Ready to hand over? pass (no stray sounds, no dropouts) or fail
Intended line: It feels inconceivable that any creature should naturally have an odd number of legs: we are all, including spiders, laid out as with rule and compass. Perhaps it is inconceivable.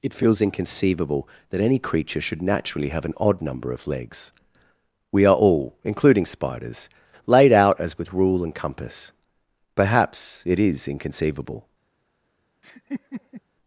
fail